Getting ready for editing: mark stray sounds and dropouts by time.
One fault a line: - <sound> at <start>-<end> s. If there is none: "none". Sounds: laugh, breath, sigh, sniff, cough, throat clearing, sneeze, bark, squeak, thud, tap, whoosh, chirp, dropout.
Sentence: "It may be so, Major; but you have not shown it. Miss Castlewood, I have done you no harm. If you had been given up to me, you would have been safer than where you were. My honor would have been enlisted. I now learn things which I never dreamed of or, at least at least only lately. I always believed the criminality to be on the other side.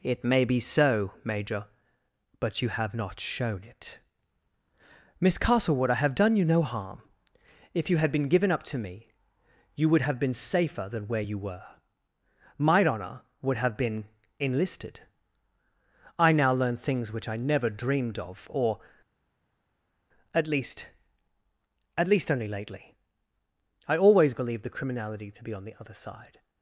none